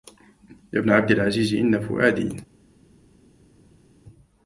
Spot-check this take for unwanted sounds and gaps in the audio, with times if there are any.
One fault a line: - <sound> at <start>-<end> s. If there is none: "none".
none